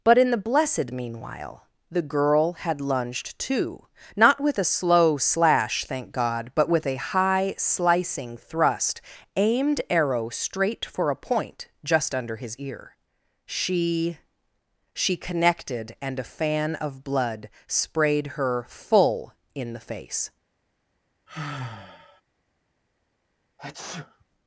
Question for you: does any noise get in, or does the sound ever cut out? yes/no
yes